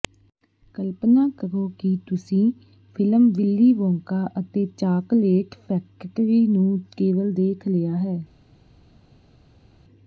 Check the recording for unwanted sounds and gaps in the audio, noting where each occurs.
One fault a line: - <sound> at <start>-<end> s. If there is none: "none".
none